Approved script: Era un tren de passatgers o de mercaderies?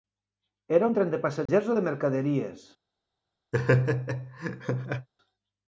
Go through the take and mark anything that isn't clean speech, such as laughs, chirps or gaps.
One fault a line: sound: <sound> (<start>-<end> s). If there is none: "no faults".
sound: dropout (1.5-1.5 s)
sound: laugh (3.5-5.1 s)